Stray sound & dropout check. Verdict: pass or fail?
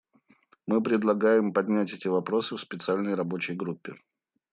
pass